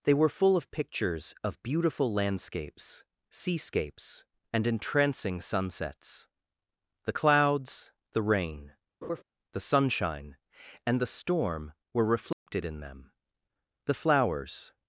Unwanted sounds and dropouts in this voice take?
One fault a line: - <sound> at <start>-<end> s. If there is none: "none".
- laugh at 9.0-9.2 s
- dropout at 12.3-12.5 s